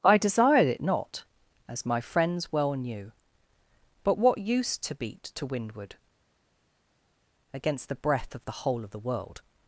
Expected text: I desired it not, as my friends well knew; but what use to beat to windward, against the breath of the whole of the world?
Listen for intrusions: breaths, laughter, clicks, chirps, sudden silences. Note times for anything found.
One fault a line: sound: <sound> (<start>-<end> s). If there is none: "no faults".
no faults